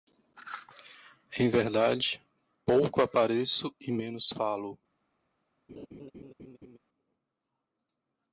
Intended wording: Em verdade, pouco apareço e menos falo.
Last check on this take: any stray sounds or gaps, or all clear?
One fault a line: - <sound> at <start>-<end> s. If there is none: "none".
- laugh at 5.7-6.8 s